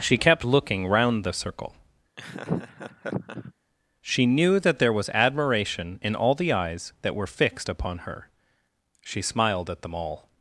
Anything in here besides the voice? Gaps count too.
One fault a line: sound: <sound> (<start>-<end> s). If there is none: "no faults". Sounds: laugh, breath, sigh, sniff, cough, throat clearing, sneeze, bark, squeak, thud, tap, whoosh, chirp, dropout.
sound: laugh (2.2-3.5 s)